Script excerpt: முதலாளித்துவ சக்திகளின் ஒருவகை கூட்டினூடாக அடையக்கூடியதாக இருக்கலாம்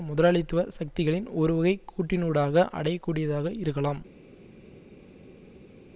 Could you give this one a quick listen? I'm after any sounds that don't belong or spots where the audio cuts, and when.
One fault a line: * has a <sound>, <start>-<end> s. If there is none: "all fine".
all fine